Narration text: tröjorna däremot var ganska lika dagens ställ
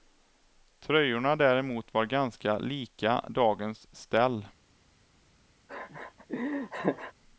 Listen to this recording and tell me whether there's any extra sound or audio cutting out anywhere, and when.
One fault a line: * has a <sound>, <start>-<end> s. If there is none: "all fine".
* has a laugh, 5.7-7.1 s